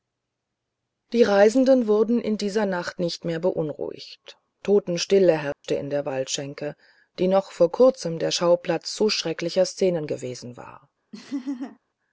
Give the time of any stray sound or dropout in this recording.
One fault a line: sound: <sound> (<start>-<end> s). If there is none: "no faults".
sound: dropout (5.5-5.6 s)
sound: laugh (11.1-11.8 s)